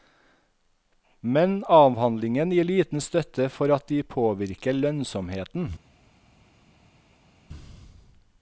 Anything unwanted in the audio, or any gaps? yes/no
no